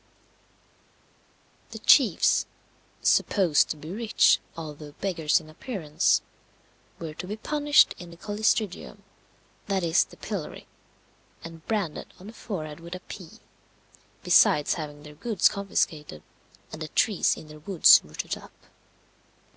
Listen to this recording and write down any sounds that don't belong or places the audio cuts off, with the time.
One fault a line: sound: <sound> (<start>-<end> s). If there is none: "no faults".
no faults